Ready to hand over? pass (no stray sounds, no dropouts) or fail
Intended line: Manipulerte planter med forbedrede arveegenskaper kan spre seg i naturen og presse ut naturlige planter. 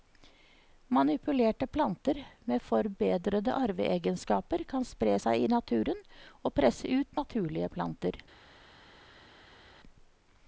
pass